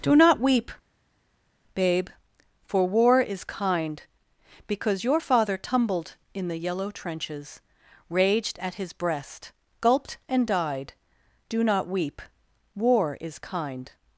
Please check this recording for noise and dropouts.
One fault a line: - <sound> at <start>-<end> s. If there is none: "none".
none